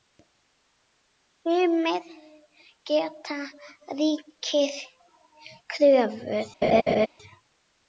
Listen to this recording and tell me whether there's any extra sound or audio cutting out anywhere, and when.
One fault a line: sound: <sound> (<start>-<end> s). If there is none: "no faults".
sound: laugh (6.6-7.1 s)